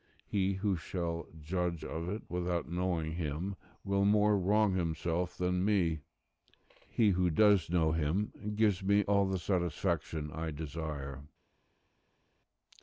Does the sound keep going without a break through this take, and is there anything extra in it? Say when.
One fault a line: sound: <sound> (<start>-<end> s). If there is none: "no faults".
no faults